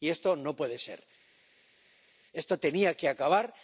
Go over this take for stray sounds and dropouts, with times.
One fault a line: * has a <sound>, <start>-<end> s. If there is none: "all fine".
all fine